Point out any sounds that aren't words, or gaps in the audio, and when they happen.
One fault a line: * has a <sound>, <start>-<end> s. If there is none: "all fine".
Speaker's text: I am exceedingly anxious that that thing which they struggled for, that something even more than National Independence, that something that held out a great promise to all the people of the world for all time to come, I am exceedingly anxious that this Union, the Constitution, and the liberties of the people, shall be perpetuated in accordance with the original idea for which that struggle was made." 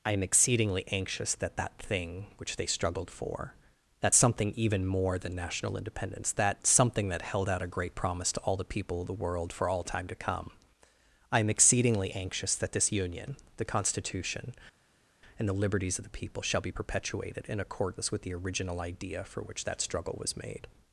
all fine